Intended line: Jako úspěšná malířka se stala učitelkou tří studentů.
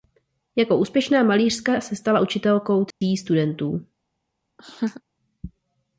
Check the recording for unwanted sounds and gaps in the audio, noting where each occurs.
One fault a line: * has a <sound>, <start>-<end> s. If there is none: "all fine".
* has a dropout, 2.9-3.0 s
* has a laugh, 4.6-5.0 s